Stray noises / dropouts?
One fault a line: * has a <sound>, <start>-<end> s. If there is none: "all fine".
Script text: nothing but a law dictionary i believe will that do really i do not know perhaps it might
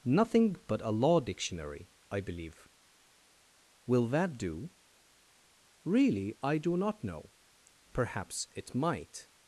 all fine